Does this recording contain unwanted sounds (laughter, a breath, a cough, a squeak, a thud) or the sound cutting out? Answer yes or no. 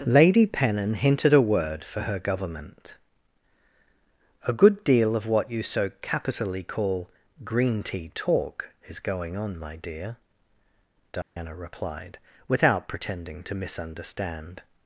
yes